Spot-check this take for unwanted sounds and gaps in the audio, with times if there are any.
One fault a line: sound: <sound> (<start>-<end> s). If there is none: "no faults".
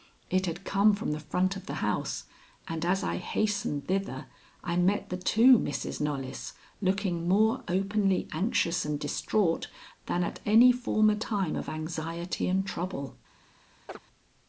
sound: chirp (13.9-14.0 s)